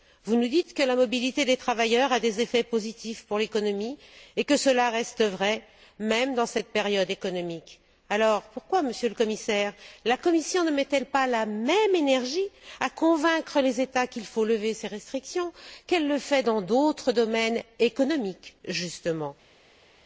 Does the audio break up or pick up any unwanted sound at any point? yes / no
no